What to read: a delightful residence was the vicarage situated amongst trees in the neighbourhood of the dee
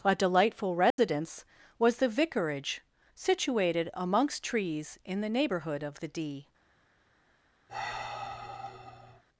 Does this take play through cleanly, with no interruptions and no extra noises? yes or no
no